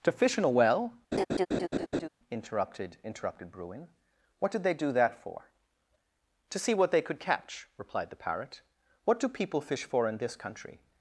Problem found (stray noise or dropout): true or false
true